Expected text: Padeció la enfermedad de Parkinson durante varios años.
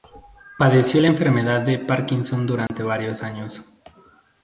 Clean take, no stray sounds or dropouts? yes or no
no